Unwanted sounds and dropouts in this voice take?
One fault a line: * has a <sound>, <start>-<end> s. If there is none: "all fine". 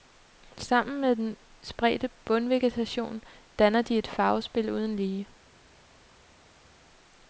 all fine